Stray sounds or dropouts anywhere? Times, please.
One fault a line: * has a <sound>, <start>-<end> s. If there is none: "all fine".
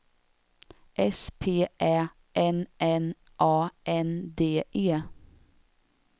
all fine